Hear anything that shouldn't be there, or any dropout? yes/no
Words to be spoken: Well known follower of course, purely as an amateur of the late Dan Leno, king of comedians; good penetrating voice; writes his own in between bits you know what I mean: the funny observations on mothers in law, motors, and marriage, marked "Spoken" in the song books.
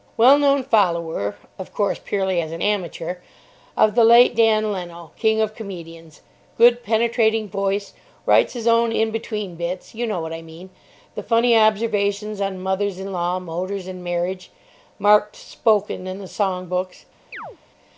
yes